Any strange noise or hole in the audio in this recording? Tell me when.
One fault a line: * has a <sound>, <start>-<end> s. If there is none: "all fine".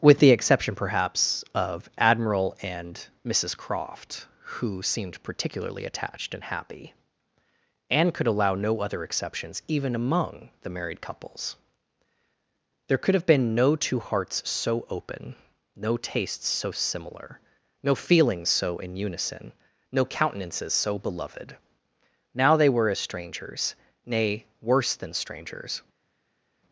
all fine